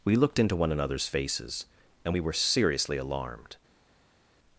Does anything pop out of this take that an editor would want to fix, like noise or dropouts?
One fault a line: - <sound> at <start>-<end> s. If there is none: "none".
none